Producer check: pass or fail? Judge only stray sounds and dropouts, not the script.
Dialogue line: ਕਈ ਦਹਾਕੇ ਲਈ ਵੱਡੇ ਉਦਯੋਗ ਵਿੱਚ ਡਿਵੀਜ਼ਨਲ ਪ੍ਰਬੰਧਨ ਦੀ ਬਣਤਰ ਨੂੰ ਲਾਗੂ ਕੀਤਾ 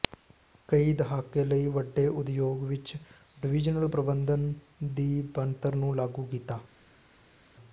pass